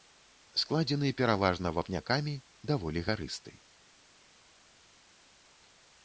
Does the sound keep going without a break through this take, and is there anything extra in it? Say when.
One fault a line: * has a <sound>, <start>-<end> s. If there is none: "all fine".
all fine